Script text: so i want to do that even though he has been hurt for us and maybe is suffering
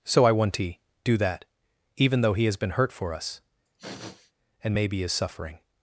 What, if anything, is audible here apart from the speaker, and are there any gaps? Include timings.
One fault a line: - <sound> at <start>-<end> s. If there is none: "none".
- sniff at 3.7-4.3 s